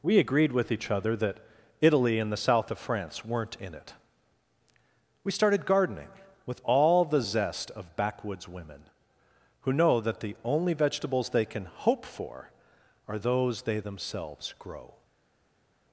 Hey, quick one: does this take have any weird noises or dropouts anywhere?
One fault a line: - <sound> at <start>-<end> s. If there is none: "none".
none